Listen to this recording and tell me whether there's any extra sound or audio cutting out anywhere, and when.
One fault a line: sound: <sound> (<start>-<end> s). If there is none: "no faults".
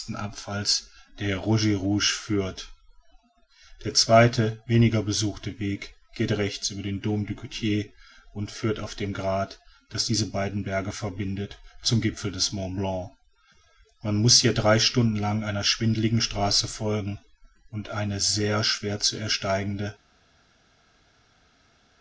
no faults